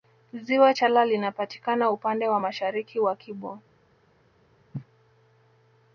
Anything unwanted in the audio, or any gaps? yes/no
yes